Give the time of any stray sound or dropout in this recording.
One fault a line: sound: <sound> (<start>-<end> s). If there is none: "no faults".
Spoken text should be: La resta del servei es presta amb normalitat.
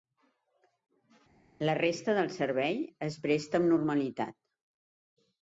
no faults